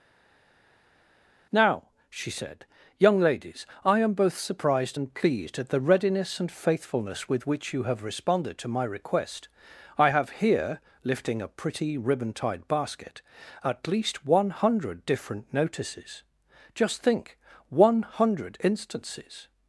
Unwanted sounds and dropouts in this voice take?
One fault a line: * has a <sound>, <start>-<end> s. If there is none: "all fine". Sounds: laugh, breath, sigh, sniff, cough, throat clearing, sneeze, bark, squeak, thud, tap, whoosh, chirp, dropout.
all fine